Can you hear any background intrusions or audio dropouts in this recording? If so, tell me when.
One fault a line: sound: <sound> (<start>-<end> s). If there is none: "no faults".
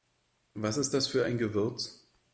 no faults